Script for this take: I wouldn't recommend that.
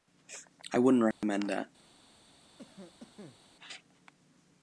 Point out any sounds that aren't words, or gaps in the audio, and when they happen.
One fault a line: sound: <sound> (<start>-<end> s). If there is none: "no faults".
sound: dropout (1.1-1.2 s)
sound: cough (2.6-3.4 s)